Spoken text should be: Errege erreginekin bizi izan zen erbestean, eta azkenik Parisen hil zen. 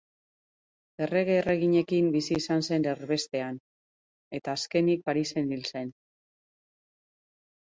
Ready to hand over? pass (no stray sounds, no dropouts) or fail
pass